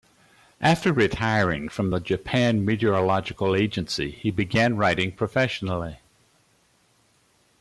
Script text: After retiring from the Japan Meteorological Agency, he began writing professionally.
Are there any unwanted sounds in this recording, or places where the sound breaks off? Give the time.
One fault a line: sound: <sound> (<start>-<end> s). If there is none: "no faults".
no faults